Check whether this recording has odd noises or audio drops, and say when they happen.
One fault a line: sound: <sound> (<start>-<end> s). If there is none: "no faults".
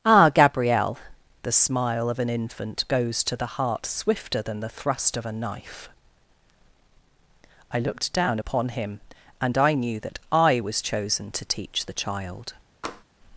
sound: tap (12.8-13.0 s)